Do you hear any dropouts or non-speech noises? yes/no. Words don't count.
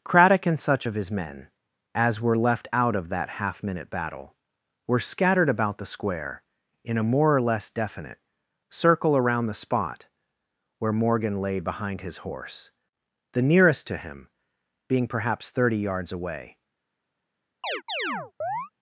yes